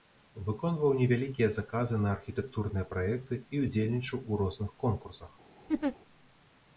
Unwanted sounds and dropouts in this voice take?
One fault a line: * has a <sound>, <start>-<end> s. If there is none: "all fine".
* has a laugh, 5.7-6.0 s